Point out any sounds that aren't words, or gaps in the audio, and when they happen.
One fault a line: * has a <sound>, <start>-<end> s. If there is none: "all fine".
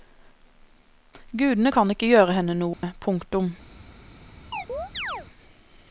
* has a dropout, 2.7-2.8 s
* has a chirp, 4.5-5.3 s